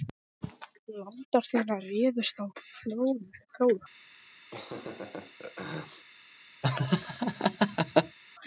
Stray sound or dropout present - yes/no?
yes